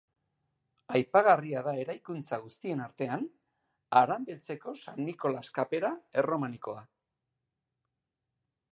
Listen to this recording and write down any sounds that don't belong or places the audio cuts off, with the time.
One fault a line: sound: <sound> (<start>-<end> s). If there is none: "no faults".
no faults